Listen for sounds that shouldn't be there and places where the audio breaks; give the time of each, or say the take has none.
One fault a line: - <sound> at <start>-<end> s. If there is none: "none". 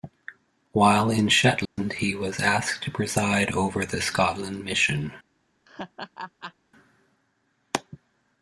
- dropout at 1.7-1.8 s
- laugh at 5.6-6.5 s